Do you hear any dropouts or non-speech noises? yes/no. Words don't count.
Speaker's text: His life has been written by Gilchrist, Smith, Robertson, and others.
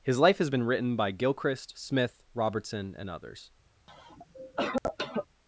yes